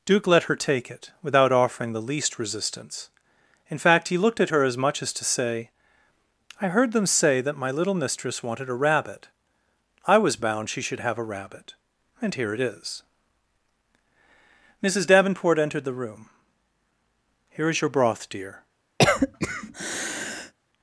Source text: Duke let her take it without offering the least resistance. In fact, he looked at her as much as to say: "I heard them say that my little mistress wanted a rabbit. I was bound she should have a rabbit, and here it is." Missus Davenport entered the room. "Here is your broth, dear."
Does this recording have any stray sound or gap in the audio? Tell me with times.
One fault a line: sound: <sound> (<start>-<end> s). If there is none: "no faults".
sound: cough (19.0-20.5 s)